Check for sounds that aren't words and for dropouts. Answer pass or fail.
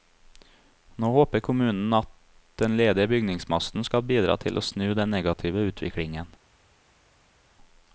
pass